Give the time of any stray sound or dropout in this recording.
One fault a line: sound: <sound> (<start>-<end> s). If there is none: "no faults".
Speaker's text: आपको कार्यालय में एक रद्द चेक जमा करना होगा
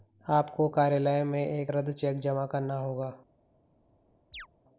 sound: chirp (4.3-4.5 s)